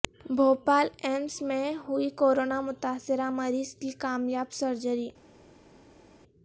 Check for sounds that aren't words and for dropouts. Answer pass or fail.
pass